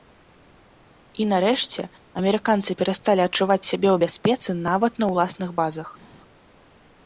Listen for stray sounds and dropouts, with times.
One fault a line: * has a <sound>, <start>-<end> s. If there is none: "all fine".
all fine